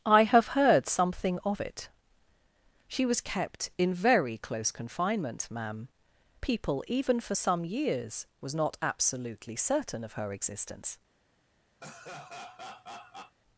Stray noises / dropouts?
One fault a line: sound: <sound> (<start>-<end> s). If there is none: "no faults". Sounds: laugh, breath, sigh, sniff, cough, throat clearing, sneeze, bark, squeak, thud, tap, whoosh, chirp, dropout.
sound: laugh (11.8-13.4 s)